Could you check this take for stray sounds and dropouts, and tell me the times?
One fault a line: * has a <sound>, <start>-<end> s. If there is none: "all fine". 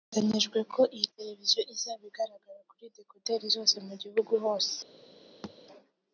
* has a thud, 5.4-5.6 s